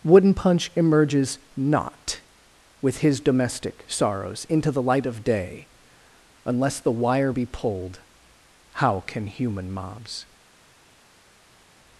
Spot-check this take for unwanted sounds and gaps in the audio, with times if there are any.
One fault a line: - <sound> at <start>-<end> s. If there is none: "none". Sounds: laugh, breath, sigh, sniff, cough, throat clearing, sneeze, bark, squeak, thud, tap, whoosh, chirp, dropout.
none